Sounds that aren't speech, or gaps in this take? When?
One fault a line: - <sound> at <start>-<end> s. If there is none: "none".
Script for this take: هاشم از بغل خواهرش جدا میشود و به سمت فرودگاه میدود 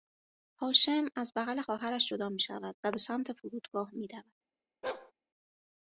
- bark at 4.8-5.1 s